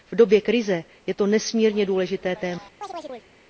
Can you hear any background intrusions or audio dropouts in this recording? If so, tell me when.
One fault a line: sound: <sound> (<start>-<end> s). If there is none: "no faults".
sound: chirp (2.8-3.3 s)